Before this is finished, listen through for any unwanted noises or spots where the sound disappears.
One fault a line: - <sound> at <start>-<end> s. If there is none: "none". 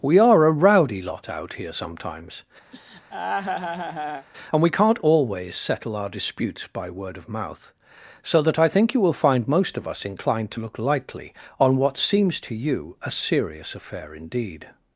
- laugh at 2.7-4.3 s